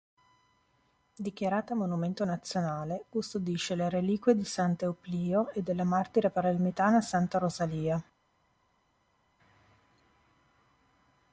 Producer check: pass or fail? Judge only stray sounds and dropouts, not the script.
pass